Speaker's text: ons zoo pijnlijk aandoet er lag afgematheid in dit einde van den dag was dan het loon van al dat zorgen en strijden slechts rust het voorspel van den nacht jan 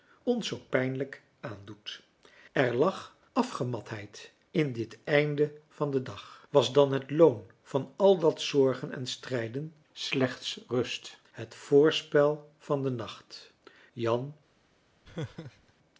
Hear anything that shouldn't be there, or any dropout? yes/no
yes